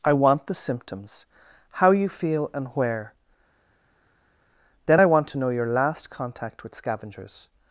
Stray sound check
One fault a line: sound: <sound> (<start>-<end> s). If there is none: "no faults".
no faults